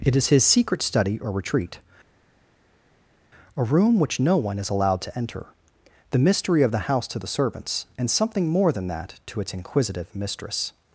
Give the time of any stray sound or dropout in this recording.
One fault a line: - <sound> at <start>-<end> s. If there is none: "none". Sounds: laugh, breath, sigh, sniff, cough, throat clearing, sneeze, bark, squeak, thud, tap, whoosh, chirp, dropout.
none